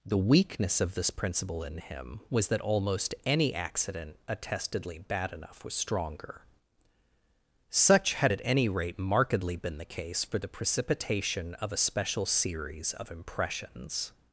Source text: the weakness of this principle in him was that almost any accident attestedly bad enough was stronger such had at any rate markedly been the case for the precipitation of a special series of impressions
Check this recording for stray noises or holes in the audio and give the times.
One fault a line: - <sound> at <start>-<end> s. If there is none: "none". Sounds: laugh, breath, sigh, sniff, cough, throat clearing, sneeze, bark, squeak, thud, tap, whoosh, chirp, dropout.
none